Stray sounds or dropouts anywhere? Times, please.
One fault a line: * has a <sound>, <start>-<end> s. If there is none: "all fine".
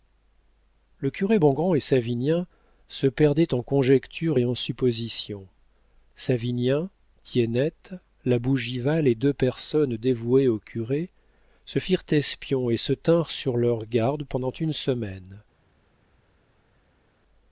all fine